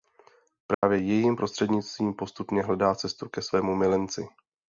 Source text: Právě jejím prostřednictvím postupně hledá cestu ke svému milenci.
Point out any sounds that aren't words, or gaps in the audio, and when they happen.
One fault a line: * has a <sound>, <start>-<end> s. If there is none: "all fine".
* has a dropout, 0.7-0.8 s